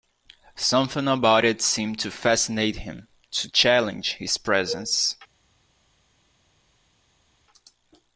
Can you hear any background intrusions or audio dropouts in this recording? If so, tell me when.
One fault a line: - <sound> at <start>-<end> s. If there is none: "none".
none